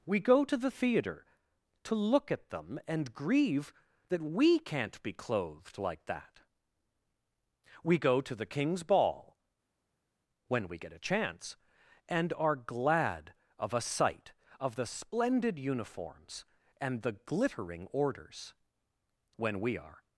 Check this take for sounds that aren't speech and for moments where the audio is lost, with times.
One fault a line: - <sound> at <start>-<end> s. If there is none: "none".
none